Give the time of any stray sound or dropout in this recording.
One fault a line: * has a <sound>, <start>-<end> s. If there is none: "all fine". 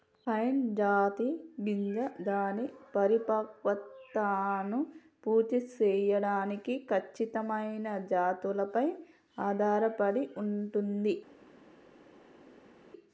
all fine